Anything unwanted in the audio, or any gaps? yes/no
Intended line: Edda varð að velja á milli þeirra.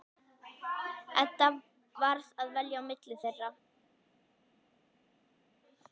no